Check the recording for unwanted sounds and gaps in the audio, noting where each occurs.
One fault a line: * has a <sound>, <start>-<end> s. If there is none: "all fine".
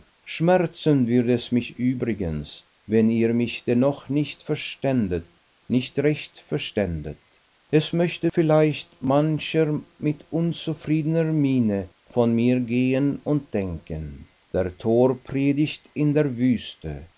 all fine